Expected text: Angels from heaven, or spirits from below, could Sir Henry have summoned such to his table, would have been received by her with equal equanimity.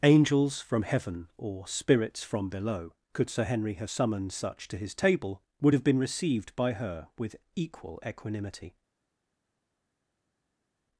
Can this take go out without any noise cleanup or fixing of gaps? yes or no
yes